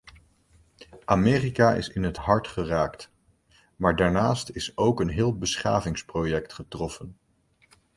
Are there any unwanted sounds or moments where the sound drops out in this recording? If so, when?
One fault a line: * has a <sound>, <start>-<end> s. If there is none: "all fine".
all fine